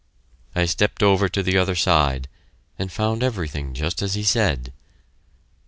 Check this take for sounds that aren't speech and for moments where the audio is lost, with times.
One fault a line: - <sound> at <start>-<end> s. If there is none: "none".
none